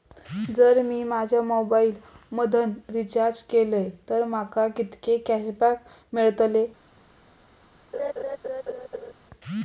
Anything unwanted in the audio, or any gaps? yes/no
yes